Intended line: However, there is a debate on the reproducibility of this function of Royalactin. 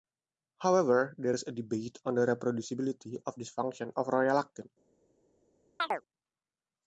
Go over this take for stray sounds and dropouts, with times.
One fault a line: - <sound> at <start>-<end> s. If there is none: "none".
- chirp at 5.8-6.0 s